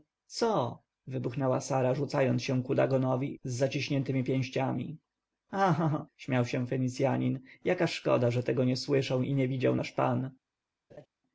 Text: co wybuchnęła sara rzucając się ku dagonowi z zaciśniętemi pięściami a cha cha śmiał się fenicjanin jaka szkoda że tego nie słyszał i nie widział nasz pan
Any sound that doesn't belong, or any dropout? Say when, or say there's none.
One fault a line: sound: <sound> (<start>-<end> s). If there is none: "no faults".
sound: laugh (10.9-11.1 s)